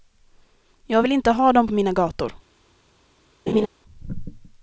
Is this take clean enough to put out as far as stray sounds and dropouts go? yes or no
no